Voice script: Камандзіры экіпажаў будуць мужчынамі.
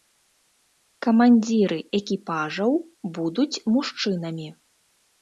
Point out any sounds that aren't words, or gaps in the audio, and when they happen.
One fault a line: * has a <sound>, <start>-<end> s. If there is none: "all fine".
all fine